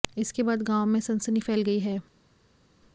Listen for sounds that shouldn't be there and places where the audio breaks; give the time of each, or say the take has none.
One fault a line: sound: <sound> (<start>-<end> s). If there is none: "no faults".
no faults